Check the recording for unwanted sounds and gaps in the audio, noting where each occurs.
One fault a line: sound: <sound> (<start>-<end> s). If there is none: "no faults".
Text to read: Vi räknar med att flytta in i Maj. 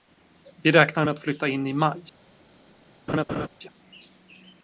sound: laugh (3.1-3.5 s)